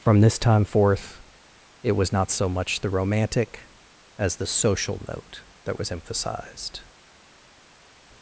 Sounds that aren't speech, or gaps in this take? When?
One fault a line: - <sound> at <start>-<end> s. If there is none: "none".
none